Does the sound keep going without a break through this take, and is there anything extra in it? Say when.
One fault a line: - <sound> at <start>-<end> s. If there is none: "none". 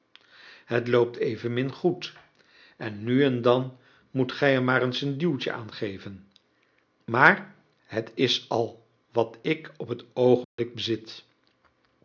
- dropout at 10.4-10.6 s